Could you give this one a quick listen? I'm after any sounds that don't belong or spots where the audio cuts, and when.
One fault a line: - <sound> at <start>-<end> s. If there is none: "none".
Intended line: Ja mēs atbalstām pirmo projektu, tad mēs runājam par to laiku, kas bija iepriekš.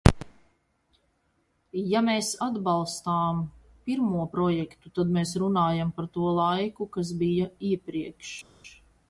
none